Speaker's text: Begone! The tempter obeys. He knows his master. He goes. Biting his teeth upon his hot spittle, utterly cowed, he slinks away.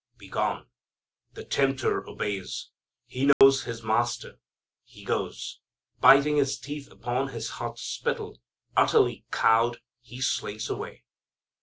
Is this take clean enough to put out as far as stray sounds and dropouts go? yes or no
no